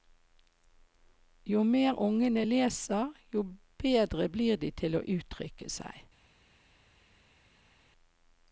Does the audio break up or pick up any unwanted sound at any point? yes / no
no